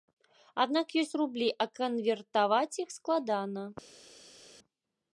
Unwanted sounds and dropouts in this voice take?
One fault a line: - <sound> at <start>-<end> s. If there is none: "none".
none